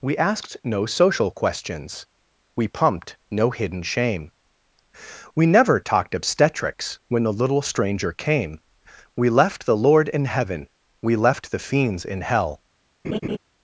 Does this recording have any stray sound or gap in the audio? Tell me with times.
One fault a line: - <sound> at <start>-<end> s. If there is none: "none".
- laugh at 13.0-13.4 s